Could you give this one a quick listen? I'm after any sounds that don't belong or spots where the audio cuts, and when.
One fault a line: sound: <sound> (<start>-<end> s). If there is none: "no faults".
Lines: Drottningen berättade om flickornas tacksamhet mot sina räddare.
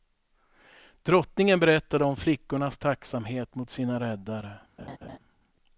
sound: laugh (4.8-5.2 s)